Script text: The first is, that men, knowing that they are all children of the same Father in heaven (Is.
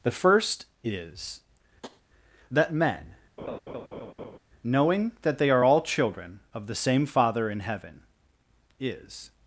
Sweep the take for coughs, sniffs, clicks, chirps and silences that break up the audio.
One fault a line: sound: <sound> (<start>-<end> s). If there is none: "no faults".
sound: tap (1.8-2.0 s)
sound: laugh (3.4-4.4 s)